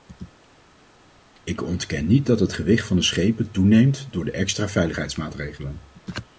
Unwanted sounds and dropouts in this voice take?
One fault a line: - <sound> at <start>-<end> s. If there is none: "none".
none